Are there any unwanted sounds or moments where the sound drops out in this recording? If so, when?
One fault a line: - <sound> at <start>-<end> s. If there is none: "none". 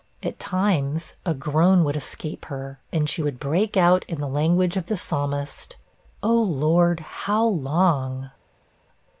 none